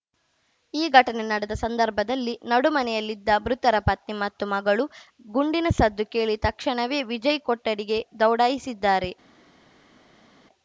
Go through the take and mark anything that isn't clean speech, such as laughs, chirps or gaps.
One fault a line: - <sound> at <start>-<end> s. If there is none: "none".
none